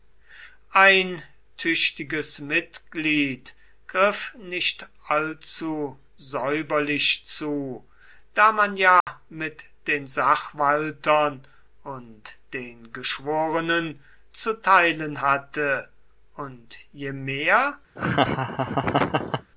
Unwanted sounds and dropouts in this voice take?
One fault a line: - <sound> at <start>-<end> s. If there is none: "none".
- dropout at 9.0-9.1 s
- laugh at 18.0-19.5 s